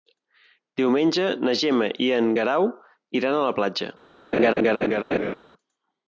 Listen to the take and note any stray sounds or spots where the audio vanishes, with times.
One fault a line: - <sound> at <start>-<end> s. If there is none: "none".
- laugh at 4.3-5.4 s